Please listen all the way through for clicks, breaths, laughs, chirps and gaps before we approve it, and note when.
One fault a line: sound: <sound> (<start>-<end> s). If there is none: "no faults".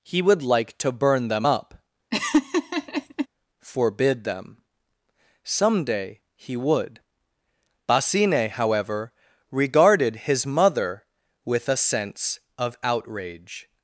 sound: laugh (2.1-3.3 s)